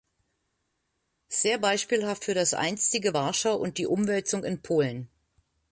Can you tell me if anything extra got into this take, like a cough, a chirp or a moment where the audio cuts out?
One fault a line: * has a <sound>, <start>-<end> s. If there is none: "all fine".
all fine